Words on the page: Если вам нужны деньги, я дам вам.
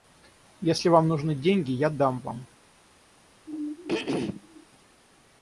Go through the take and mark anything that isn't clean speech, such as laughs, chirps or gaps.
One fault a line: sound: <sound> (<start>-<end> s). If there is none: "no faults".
sound: throat clearing (3.5-4.7 s)